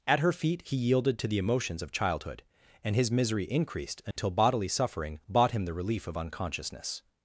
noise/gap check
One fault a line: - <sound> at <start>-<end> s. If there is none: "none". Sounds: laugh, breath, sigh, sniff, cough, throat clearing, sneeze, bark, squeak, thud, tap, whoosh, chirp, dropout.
- dropout at 4.1-4.2 s